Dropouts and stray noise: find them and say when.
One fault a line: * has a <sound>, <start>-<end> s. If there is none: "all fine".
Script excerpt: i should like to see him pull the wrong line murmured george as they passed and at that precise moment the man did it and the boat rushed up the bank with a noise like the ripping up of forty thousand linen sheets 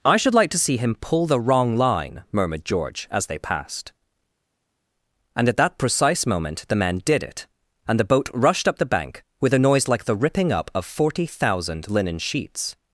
all fine